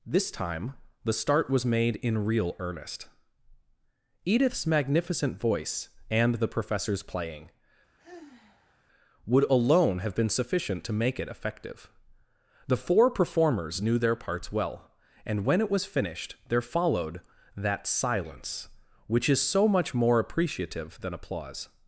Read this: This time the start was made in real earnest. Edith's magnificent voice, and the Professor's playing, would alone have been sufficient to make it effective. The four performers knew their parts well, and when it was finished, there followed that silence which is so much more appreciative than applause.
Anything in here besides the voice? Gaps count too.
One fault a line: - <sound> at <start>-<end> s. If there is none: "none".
- sigh at 8.0-8.8 s